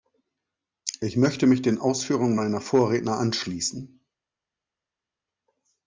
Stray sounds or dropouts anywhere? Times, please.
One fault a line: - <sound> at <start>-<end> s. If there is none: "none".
none